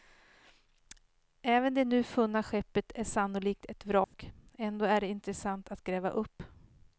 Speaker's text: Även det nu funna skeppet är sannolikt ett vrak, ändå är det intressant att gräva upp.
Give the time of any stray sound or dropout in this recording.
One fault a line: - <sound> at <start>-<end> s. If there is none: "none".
- dropout at 4.0-4.1 s